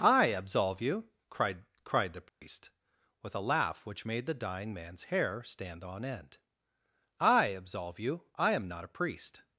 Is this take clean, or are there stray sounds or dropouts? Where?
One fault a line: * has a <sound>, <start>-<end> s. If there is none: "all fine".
* has a dropout, 2.3-2.4 s